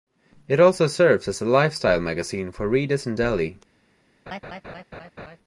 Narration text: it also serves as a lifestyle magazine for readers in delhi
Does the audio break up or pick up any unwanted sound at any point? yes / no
yes